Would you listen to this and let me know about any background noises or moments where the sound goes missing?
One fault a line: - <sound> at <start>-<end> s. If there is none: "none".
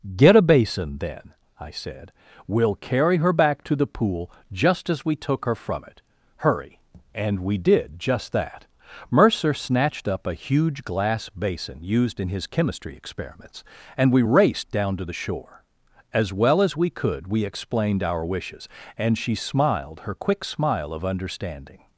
none